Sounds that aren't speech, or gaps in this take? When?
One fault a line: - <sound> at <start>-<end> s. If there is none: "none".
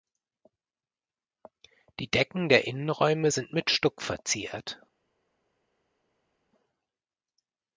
none